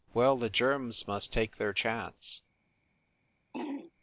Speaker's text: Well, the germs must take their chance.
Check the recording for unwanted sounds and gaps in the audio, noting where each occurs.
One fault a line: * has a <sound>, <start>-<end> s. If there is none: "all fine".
* has a throat clearing, 3.5-3.9 s